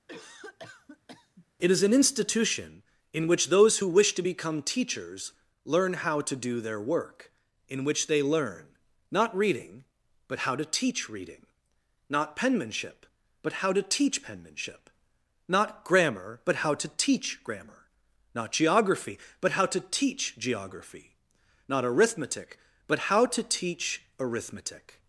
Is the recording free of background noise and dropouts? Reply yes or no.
no